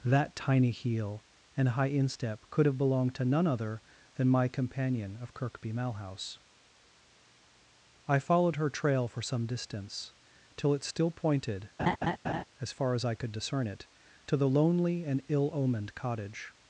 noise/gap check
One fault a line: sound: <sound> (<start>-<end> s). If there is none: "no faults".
sound: laugh (11.8-12.4 s)